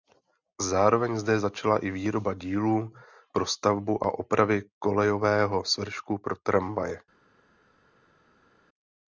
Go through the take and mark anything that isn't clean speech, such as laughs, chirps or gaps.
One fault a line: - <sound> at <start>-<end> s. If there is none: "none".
none